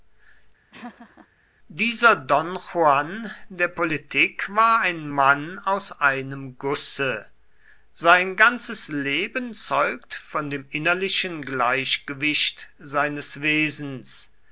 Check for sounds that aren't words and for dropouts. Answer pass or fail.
fail